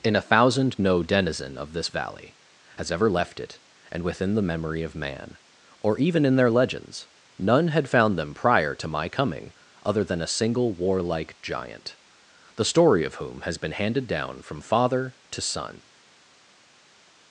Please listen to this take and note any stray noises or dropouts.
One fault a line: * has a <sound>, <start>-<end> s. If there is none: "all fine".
all fine